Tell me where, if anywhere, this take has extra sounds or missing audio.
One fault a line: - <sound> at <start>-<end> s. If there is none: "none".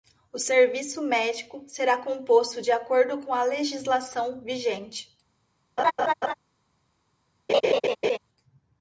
- laugh at 5.8-6.3 s
- laugh at 7.5-8.2 s